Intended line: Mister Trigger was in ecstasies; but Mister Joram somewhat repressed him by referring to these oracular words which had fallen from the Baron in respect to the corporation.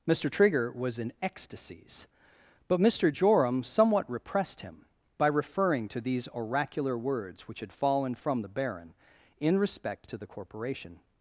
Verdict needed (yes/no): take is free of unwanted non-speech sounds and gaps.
yes